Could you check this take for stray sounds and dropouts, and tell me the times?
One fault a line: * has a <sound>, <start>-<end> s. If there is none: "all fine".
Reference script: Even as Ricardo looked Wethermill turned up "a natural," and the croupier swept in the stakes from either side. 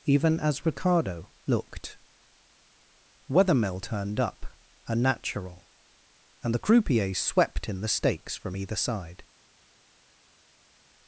all fine